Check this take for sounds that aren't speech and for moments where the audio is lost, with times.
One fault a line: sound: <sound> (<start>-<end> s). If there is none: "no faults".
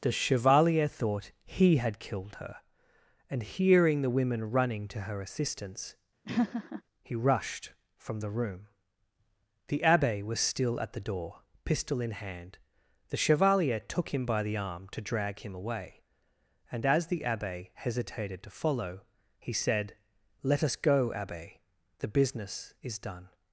sound: laugh (6.3-6.8 s)